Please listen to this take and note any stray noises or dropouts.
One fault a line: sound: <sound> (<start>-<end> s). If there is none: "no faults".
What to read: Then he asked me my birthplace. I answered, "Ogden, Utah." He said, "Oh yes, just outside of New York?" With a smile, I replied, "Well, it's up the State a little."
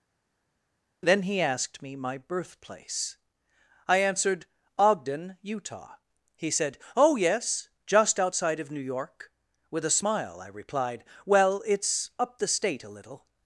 no faults